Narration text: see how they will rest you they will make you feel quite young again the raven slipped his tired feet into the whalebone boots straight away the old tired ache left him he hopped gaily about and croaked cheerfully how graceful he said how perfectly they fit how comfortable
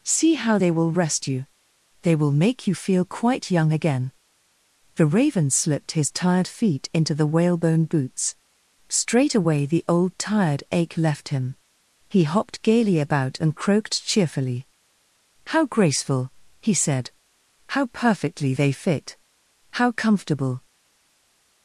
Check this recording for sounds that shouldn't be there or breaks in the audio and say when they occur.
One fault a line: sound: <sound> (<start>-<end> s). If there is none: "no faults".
no faults